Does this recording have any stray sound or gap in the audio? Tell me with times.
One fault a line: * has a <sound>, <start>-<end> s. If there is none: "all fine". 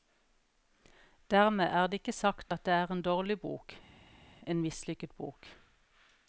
all fine